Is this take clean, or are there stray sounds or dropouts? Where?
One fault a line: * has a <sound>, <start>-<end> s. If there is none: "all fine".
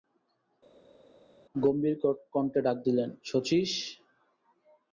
all fine